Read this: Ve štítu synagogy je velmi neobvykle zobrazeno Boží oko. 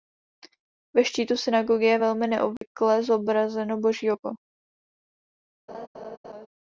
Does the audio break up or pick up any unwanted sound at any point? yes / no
yes